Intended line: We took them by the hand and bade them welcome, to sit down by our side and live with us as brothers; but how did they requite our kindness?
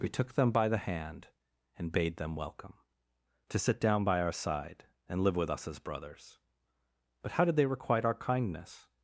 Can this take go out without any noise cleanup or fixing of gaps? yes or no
yes